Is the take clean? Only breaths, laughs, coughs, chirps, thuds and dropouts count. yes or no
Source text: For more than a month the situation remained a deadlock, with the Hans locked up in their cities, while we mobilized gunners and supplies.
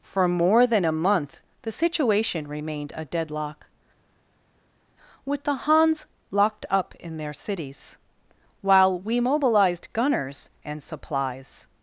yes